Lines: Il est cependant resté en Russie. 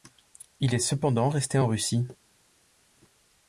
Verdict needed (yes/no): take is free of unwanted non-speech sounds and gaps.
yes